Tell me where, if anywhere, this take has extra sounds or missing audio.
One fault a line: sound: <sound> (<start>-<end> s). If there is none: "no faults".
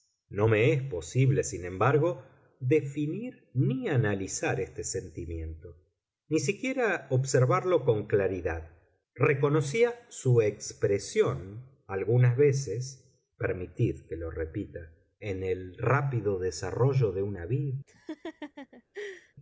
sound: laugh (17.9-19.3 s)